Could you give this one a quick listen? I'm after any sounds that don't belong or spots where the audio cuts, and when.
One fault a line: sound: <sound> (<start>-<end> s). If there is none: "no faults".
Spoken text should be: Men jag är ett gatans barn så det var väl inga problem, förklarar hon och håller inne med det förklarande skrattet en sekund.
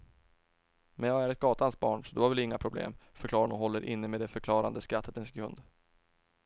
no faults